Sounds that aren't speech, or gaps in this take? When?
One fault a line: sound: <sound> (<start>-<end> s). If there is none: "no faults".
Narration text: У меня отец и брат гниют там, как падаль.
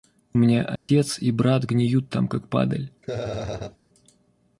sound: dropout (0.8-0.9 s)
sound: laugh (3.0-3.8 s)